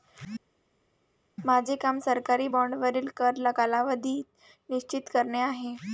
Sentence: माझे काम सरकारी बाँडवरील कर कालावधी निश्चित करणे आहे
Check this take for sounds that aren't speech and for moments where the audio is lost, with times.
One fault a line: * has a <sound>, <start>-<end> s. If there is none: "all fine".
all fine